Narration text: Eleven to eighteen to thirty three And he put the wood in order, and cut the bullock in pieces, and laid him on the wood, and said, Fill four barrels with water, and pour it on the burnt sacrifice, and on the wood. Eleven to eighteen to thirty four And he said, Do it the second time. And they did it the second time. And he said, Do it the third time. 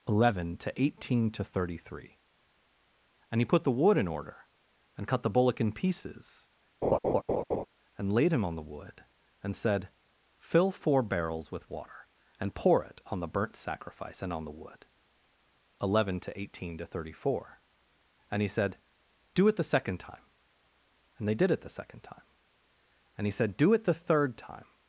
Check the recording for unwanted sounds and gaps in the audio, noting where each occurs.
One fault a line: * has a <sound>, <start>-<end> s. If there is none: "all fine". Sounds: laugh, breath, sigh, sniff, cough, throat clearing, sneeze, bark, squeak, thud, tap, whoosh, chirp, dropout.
* has a laugh, 6.8-7.7 s